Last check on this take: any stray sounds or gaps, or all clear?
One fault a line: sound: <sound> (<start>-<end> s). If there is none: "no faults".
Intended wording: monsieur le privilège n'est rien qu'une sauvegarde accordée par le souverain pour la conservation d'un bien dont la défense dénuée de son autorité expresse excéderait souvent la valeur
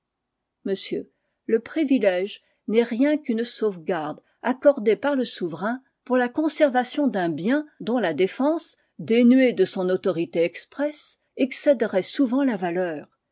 no faults